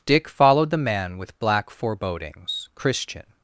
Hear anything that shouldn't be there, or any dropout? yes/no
no